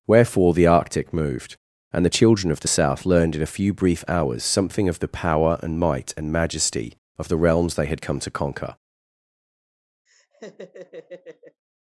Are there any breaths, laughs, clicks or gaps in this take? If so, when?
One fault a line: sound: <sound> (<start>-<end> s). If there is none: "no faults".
sound: laugh (10.1-11.6 s)